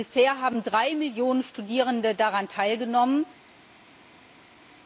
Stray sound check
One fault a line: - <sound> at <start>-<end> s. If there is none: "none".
none